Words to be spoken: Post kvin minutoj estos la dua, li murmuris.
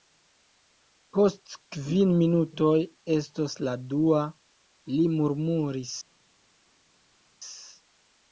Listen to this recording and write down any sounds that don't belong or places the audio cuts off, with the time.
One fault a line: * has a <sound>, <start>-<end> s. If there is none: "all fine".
all fine